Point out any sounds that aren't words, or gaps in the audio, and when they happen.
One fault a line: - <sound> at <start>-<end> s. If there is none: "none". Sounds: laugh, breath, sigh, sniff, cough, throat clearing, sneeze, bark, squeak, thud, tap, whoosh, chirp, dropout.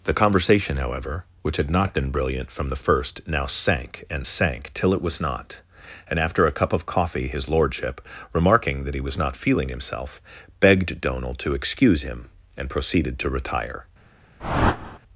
- whoosh at 14.4-15.0 s